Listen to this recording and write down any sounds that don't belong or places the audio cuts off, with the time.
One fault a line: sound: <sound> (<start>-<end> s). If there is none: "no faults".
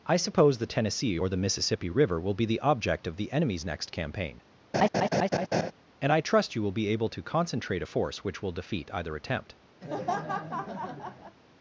sound: laugh (4.7-5.7 s)
sound: laugh (9.8-11.4 s)